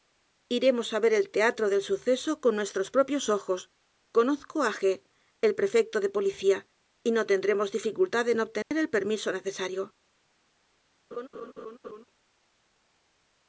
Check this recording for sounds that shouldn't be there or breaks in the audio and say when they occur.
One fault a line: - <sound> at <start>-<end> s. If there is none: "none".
- dropout at 8.6-8.7 s
- laugh at 11.1-12.0 s